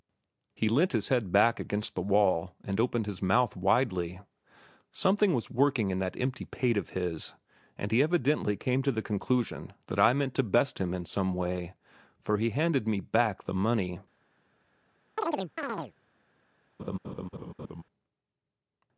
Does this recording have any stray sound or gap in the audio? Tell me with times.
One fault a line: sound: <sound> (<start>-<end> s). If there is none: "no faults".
sound: chirp (15.2-15.9 s)
sound: laugh (16.8-17.8 s)